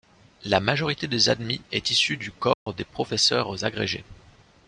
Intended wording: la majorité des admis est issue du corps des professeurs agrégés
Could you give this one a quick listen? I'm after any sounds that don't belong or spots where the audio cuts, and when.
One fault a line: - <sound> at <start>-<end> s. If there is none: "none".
- dropout at 2.5-2.7 s